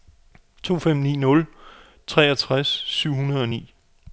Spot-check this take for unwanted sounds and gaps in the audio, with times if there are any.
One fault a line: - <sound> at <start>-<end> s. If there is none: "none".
none